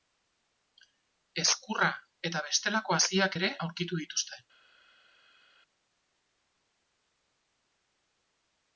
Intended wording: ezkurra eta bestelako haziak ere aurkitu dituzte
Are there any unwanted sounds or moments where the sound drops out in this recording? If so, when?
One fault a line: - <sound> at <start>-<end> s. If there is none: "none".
none